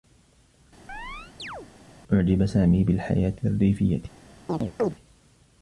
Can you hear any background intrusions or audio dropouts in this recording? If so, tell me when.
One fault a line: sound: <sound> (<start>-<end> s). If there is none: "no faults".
sound: chirp (0.9-1.7 s)
sound: chirp (4.5-4.9 s)